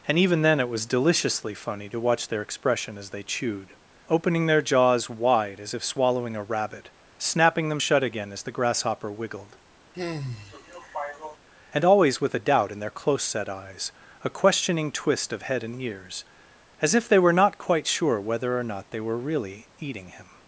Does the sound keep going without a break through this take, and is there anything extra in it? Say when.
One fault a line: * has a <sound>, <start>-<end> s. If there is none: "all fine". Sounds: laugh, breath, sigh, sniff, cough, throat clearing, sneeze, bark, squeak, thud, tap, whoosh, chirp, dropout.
* has a sigh, 9.9-11.4 s